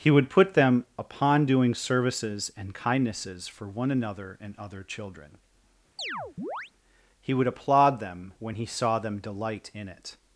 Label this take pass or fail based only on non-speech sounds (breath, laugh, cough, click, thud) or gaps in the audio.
fail